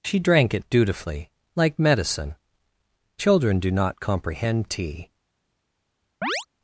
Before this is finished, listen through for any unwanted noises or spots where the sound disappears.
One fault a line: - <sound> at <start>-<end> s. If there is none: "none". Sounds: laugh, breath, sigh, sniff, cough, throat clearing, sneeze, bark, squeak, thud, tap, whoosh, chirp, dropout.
- chirp at 6.2-6.5 s